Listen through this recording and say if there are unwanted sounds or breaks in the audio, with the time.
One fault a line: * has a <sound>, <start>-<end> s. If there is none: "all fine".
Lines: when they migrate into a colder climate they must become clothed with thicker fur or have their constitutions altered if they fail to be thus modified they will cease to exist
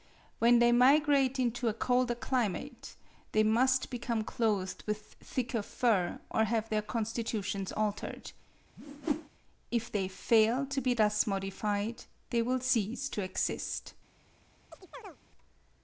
* has a whoosh, 8.8-9.3 s
* has a chirp, 14.7-15.2 s